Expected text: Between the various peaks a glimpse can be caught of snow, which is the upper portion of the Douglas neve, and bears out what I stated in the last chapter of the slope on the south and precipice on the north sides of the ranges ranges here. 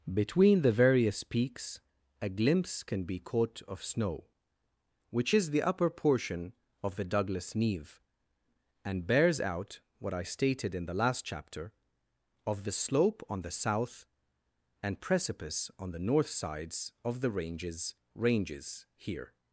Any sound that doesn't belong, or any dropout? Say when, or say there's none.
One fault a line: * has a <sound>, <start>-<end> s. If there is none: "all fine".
all fine